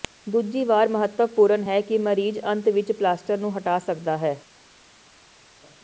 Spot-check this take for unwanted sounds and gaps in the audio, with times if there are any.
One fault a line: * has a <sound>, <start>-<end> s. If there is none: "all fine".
all fine